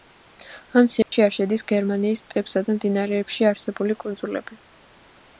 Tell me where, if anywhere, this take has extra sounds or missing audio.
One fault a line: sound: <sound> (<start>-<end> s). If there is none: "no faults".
sound: dropout (1.0-1.1 s)